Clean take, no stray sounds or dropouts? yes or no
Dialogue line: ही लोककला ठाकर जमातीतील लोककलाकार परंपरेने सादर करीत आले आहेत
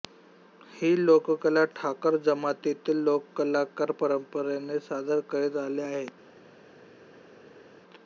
yes